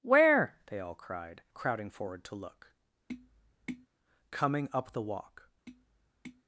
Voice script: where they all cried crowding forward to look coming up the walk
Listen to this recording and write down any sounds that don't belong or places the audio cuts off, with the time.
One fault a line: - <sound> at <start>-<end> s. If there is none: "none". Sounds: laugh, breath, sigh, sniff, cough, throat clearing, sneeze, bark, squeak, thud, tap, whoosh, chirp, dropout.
- tap at 3.1-3.9 s
- tap at 5.7-6.4 s